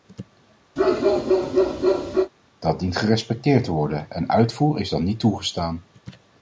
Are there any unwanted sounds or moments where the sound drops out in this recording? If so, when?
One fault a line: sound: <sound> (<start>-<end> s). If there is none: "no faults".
sound: bark (0.8-2.3 s)